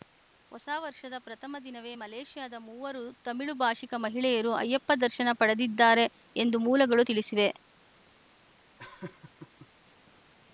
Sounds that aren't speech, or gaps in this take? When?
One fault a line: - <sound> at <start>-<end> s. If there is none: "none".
- laugh at 8.8-9.7 s